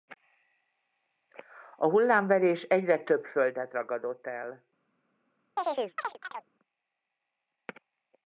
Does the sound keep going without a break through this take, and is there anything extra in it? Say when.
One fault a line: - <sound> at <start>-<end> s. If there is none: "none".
- chirp at 5.6-6.5 s